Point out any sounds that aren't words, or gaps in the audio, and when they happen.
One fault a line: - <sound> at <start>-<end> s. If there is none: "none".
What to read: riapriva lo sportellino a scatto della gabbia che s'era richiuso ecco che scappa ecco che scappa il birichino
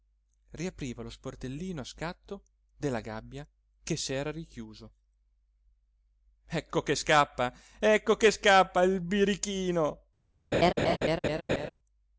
- laugh at 10.5-11.7 s